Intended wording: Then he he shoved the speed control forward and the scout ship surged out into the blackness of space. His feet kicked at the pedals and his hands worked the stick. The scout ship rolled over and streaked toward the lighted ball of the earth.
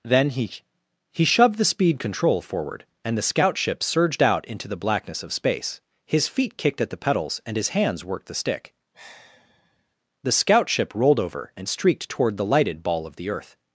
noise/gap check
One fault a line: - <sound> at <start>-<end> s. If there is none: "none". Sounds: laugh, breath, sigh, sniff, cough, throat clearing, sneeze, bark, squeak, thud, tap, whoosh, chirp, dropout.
- sigh at 8.9-10.0 s